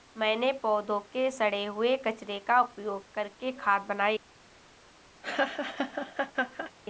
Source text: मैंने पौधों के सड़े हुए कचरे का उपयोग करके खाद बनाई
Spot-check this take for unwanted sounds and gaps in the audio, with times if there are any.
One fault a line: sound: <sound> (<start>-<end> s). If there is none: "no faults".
sound: laugh (5.2-6.7 s)